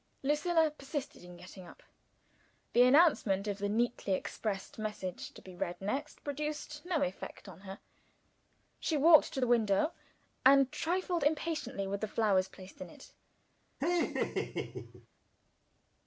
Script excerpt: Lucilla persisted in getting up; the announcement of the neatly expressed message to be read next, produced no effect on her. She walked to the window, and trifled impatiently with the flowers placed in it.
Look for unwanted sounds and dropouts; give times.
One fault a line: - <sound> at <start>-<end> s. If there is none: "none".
- laugh at 13.8-15.1 s